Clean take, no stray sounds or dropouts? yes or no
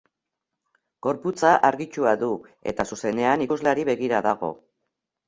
yes